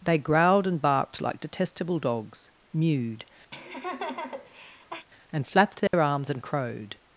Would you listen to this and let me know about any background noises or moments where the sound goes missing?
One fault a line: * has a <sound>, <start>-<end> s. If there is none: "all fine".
* has a laugh, 3.5-5.1 s
* has a dropout, 5.9-5.9 s